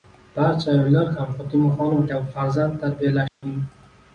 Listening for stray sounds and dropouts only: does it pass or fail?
fail